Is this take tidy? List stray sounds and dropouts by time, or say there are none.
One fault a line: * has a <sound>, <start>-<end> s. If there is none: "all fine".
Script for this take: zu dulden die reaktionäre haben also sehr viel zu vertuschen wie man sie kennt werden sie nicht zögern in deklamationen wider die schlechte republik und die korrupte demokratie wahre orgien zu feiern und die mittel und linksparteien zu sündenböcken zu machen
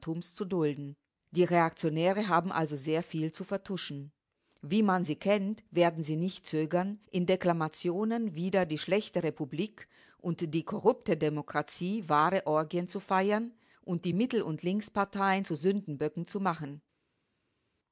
all fine